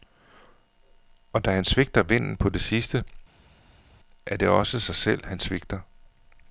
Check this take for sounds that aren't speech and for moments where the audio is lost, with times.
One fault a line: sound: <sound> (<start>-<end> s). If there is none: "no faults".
no faults